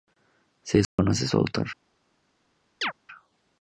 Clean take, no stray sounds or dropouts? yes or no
no